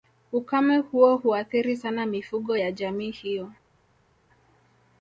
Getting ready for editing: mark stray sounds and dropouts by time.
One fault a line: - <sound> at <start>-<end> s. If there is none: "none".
none